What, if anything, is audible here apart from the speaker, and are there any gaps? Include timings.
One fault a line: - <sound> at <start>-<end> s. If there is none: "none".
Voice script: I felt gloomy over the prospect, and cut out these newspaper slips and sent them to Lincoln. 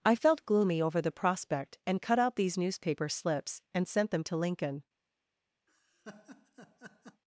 - laugh at 5.7-7.2 s